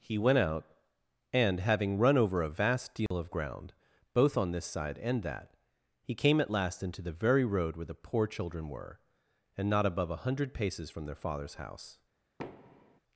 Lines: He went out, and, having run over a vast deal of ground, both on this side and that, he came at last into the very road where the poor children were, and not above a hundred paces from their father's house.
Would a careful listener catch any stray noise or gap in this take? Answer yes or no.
yes